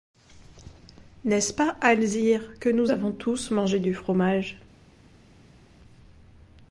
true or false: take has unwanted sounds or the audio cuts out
false